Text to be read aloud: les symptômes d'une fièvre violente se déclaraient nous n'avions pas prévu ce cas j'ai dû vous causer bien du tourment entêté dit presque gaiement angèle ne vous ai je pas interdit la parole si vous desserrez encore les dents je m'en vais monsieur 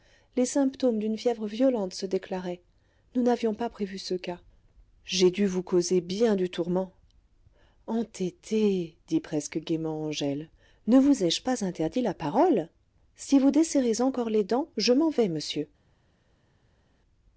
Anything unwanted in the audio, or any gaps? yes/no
no